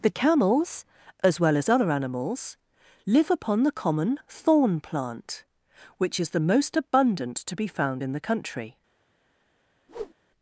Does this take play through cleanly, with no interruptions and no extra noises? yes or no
no